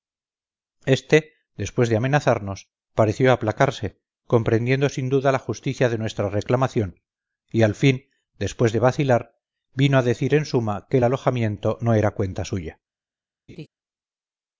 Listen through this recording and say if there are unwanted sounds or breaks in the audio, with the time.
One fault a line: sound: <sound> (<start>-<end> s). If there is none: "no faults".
sound: laugh (13.5-13.7 s)